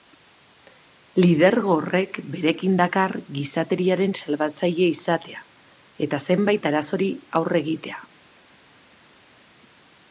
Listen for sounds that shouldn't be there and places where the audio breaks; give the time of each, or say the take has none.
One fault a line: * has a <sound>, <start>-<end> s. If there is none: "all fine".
all fine